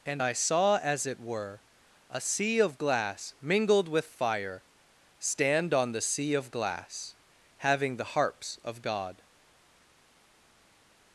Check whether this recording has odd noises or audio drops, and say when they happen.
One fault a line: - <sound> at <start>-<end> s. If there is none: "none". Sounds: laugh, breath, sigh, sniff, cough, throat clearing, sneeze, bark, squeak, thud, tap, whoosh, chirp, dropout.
none